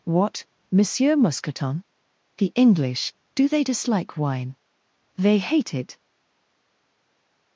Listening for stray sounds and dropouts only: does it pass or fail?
pass